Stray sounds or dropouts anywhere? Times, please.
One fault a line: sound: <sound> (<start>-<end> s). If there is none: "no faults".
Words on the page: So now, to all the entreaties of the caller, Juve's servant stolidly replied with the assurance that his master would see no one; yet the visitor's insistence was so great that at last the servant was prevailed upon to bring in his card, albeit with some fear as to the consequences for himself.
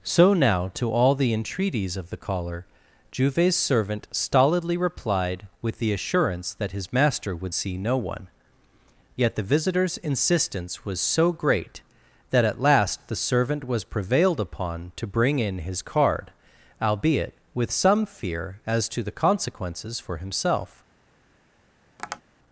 sound: tap (22.0-22.2 s)